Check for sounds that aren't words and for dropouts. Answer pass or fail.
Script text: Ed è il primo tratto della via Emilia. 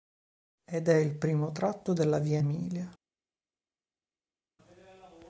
pass